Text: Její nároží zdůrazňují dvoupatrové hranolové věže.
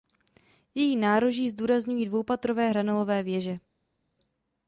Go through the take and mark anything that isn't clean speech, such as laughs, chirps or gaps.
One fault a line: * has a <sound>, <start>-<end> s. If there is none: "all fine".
all fine